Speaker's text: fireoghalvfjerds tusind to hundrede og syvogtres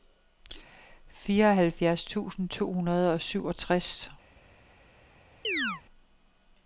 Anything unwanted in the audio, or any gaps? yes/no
yes